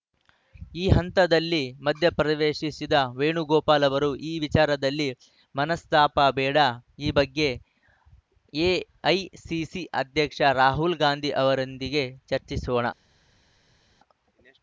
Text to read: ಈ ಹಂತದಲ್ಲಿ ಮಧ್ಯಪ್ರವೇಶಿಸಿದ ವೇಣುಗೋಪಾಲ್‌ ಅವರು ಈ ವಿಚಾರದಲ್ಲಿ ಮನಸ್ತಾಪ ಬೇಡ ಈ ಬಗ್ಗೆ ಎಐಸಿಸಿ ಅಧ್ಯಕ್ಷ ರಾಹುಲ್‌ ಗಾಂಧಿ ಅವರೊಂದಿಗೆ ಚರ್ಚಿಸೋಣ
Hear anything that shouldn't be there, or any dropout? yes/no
no